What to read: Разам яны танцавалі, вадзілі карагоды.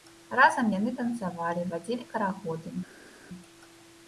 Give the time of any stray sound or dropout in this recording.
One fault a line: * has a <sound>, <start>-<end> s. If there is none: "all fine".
all fine